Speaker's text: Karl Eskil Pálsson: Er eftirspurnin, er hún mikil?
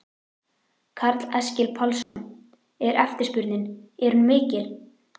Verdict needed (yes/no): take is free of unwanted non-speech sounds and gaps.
no